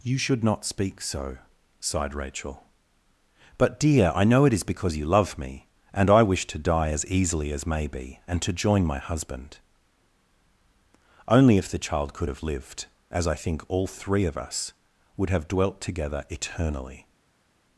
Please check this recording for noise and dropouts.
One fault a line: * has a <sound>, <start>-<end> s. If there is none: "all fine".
all fine